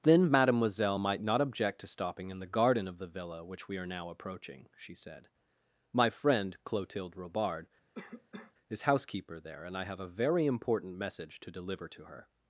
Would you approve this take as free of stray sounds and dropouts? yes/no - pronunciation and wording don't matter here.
no